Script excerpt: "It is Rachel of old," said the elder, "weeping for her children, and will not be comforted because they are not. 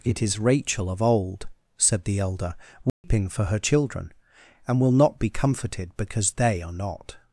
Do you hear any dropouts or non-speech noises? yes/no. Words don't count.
yes